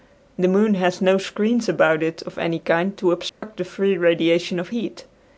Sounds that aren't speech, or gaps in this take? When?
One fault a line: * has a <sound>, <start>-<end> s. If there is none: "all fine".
* has a dropout, 3.3-3.4 s